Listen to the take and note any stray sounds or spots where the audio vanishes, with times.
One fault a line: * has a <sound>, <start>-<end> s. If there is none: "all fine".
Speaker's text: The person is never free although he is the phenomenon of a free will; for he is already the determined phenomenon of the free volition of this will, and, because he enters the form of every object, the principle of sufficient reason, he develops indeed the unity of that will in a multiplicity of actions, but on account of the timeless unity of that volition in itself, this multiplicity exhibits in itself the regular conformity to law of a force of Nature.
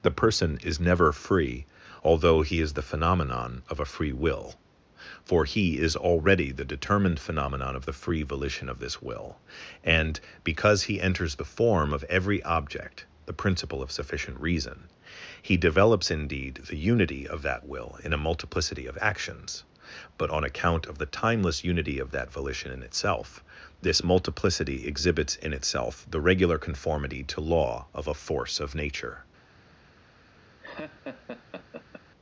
* has a laugh, 30.6-32.0 s